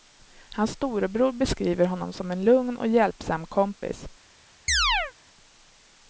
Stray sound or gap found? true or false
true